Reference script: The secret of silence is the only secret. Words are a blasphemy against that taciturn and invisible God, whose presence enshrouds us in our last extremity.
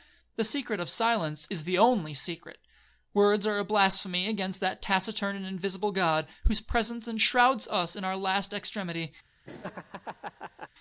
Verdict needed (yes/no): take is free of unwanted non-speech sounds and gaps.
no